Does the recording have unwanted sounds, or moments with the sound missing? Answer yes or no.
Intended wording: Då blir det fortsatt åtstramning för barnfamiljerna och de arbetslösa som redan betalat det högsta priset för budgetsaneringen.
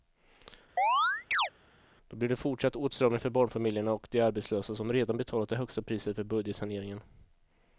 yes